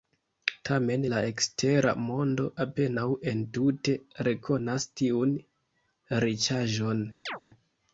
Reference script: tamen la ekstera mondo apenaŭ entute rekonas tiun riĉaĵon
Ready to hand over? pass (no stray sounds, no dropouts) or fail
fail